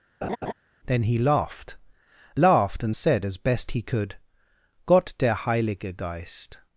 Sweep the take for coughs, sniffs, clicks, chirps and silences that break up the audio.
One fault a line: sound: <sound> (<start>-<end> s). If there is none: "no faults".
sound: laugh (0.2-0.5 s)